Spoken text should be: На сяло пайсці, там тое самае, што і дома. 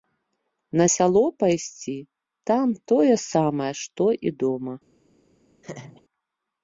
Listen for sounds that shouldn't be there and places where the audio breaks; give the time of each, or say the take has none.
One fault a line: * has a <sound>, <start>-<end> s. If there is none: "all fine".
* has a laugh, 5.6-6.0 s